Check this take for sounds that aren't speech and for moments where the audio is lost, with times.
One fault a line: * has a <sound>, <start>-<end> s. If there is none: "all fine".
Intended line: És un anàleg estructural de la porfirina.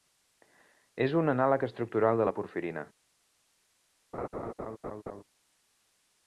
* has a laugh, 4.1-5.2 s